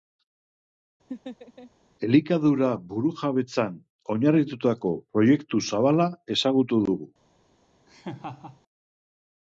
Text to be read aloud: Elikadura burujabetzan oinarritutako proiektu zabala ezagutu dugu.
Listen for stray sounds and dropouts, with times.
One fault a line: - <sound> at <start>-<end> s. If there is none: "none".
- laugh at 1.1-1.7 s
- laugh at 7.9-8.6 s